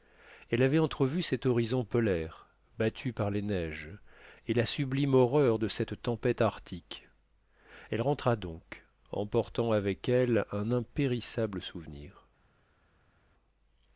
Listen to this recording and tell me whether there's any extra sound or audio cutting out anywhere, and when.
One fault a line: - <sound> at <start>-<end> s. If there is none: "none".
none